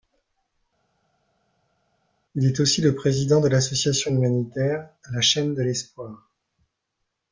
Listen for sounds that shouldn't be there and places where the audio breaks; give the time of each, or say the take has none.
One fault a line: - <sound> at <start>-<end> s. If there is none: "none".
none